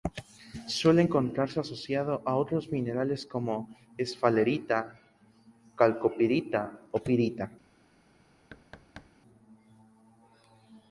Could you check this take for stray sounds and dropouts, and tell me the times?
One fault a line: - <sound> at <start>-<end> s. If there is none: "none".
- thud at 8.5-9.1 s